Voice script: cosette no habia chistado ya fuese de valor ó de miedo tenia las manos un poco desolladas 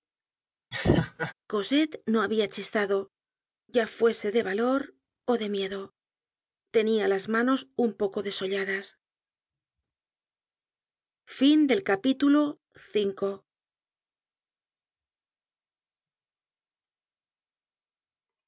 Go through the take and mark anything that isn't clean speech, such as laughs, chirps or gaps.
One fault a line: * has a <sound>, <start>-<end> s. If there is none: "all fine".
* has a laugh, 0.7-1.3 s